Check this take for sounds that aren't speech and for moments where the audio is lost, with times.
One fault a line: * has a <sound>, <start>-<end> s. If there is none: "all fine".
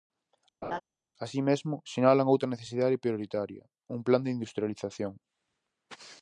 * has a laugh, 0.6-0.8 s